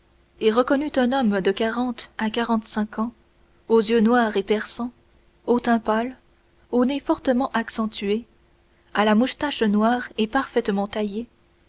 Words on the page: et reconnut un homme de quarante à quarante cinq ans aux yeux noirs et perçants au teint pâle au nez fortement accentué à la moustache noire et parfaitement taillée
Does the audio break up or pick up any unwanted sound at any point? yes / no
no